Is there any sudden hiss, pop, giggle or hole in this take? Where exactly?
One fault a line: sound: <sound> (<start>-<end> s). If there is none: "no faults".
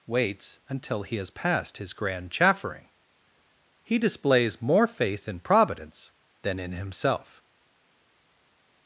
no faults